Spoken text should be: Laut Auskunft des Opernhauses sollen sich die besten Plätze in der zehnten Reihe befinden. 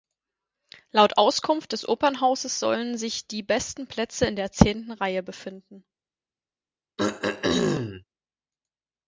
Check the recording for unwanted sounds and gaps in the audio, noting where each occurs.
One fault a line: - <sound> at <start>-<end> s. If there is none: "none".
- throat clearing at 7.0-8.0 s